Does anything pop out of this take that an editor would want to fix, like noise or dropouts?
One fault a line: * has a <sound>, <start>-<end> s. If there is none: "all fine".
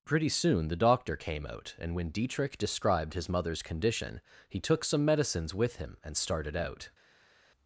all fine